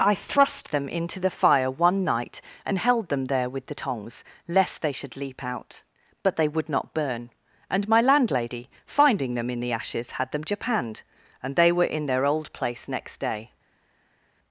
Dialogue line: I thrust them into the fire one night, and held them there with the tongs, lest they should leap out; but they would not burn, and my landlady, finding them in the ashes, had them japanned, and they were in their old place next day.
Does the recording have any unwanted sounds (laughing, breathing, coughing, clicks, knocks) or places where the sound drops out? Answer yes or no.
no